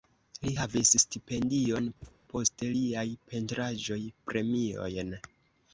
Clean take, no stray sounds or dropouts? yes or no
no